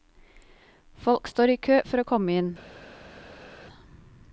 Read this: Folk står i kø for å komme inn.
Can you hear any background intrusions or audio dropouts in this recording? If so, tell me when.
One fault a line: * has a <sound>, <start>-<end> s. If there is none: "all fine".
all fine